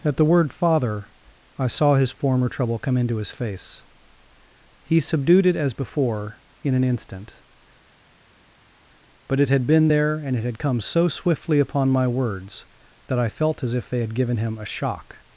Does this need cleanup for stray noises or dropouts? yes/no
no